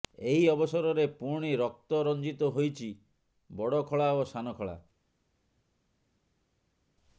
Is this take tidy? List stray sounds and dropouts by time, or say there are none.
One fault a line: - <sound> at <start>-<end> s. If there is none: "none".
none